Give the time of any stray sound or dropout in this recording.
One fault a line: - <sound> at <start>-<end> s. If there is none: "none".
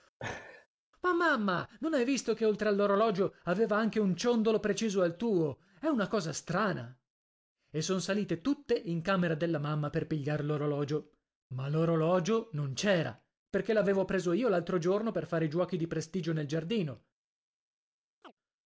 - laugh at 0.2-0.7 s
- chirp at 18.2-18.3 s